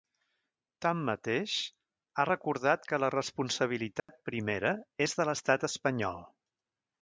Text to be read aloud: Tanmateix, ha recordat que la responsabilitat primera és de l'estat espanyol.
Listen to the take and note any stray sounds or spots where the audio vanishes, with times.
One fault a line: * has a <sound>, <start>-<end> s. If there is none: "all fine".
* has a dropout, 4.0-4.1 s